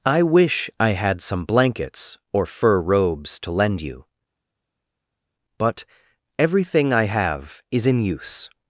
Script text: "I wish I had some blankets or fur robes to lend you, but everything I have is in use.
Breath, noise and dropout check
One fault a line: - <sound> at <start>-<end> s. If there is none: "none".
none